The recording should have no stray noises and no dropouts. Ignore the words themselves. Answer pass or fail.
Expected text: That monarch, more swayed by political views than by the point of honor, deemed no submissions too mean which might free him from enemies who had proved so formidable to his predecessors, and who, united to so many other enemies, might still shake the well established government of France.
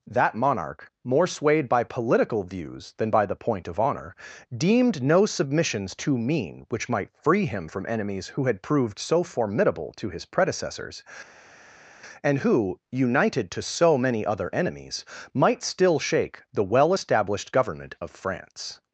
pass